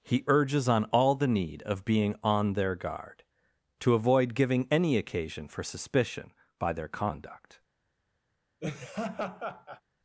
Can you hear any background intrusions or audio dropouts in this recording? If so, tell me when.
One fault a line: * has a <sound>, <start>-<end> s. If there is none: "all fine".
* has a laugh, 8.6-9.8 s